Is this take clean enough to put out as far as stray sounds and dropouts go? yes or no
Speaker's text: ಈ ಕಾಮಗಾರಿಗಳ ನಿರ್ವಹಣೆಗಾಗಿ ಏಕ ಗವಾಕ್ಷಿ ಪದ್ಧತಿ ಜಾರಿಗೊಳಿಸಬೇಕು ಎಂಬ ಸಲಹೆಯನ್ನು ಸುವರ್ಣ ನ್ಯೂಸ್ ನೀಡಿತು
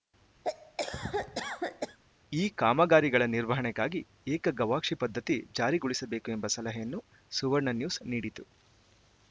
no